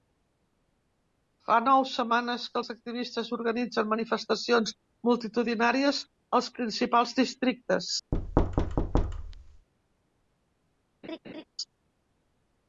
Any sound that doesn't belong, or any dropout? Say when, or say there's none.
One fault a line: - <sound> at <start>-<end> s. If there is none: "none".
- thud at 8.1-9.7 s
- laugh at 11.0-11.4 s